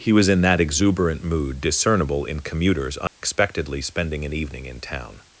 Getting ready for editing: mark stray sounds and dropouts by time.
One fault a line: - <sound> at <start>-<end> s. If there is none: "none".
- dropout at 3.1-3.2 s